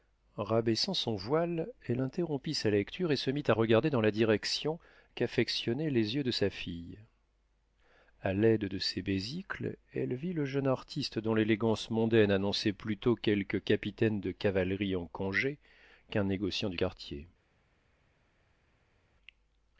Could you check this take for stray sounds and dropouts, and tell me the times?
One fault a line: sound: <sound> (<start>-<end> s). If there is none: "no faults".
no faults